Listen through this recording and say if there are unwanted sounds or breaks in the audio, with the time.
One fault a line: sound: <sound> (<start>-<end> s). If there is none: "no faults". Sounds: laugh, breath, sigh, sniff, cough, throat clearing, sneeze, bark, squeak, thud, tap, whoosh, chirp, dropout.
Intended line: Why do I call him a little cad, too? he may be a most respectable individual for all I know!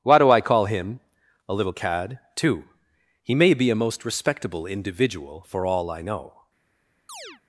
sound: chirp (7.1-7.4 s)